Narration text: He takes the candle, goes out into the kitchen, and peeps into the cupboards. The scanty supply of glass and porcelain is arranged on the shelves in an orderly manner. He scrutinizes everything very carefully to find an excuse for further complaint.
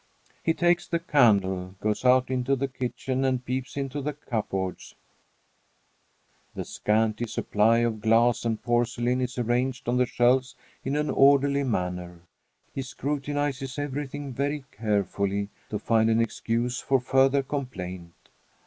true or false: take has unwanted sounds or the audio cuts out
false